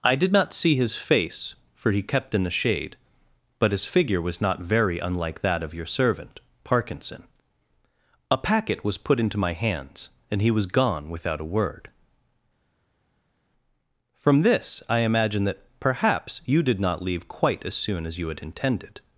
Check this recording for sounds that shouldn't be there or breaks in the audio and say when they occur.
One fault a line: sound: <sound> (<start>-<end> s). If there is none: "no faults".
no faults